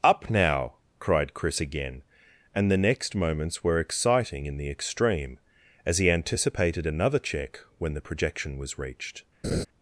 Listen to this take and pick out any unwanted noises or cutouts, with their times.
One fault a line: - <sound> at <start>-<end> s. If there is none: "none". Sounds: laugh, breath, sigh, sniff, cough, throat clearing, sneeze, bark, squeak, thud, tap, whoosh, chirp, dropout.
- laugh at 9.4-9.7 s